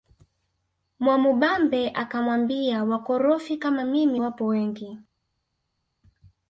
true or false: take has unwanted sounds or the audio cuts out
false